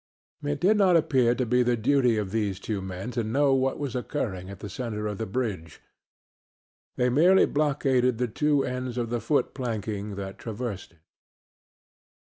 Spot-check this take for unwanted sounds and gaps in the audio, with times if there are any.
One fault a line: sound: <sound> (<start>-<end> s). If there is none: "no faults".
no faults